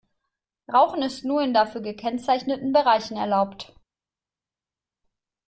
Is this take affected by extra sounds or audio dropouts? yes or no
no